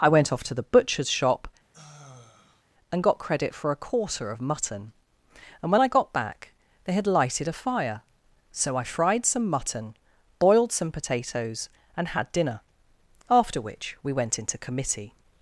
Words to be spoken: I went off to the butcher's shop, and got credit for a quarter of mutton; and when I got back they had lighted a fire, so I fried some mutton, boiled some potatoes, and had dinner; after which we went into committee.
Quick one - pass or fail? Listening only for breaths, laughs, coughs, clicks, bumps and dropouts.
fail